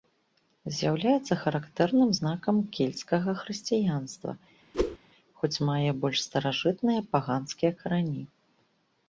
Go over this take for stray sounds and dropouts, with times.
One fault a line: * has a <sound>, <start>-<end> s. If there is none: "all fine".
* has a whoosh, 4.7-5.0 s